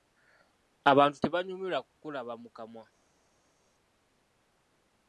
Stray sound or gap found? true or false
false